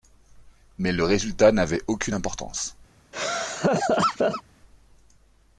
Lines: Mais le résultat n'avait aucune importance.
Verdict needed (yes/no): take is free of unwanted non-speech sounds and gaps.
no